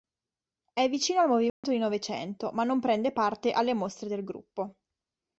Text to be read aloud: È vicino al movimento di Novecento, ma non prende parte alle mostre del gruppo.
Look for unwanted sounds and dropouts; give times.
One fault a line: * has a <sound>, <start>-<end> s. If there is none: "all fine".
* has a dropout, 1.5-1.6 s